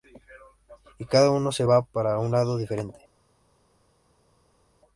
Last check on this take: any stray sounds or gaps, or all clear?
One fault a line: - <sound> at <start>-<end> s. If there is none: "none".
none